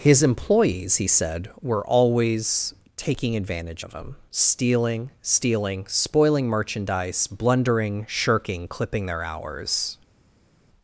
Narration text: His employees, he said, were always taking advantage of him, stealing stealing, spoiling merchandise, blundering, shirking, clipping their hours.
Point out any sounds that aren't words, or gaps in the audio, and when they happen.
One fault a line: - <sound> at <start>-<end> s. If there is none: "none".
none